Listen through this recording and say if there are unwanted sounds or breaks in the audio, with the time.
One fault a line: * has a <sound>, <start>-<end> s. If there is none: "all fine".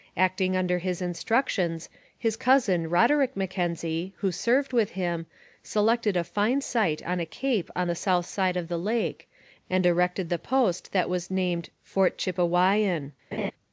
* has a laugh, 13.3-13.5 s